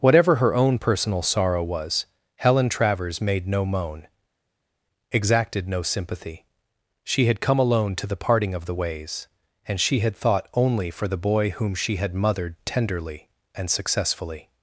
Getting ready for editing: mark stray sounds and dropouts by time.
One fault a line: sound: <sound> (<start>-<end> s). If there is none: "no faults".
no faults